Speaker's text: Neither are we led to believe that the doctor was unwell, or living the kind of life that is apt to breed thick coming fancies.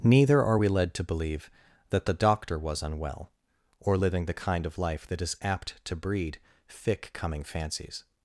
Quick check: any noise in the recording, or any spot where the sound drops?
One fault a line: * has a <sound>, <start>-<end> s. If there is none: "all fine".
all fine